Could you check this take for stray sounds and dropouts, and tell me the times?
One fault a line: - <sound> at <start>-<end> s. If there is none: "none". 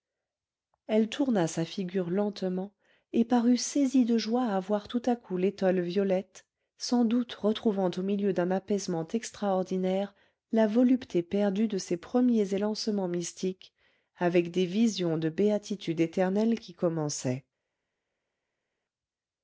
none